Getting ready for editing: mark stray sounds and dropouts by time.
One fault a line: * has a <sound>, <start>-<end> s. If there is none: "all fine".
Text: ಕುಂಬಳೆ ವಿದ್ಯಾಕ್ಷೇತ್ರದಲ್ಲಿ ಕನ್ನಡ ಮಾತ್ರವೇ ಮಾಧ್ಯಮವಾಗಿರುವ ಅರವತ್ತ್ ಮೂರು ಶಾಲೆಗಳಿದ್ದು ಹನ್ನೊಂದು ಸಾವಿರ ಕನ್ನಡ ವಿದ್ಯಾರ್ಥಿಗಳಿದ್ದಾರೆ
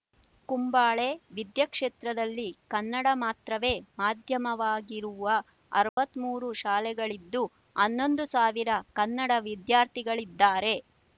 * has a dropout, 5.9-6.0 s